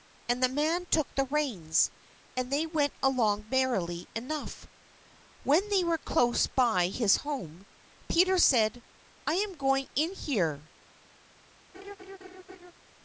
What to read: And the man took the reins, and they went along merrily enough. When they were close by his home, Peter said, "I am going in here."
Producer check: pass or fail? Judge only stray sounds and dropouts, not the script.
fail